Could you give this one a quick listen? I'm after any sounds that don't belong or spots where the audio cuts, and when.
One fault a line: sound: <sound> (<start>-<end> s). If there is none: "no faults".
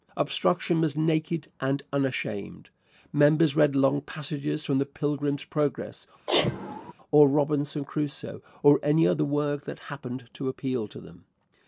sound: sneeze (6.3-6.9 s)